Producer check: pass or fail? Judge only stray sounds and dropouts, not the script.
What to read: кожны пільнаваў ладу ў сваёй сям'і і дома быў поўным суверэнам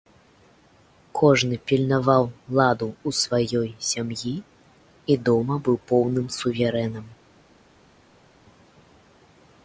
pass